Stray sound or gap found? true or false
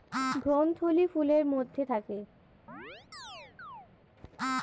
true